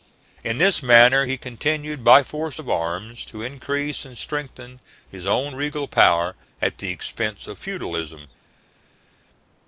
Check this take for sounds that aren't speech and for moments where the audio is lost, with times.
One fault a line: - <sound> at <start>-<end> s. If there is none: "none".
none